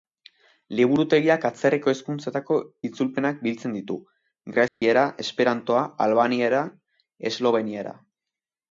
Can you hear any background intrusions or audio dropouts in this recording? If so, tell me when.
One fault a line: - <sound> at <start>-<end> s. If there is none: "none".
- dropout at 4.7-4.8 s